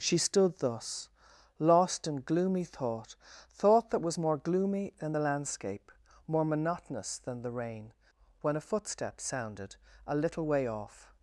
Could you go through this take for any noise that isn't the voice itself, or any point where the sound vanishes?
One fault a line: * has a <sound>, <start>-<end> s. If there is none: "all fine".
all fine